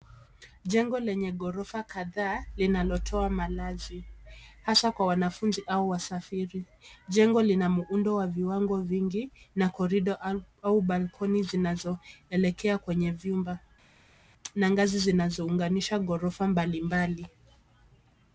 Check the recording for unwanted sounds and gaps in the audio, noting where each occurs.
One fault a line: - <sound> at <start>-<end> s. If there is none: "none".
none